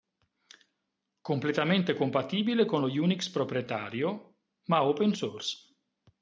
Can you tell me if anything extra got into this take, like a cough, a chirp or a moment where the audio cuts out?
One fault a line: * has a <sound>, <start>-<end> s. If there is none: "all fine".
all fine